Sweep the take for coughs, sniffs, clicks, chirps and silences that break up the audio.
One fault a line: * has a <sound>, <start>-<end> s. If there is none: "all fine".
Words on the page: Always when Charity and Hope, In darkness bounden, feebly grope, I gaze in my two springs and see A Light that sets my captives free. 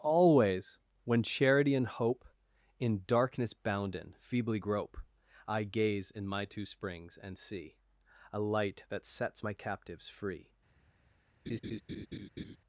* has a laugh, 11.5-12.6 s